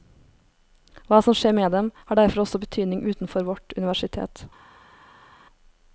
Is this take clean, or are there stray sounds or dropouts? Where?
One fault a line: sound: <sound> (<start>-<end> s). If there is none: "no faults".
no faults